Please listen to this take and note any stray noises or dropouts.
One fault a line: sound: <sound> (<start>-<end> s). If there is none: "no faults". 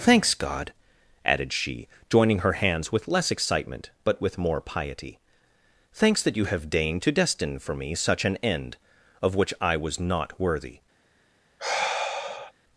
sound: sigh (11.6-12.5 s)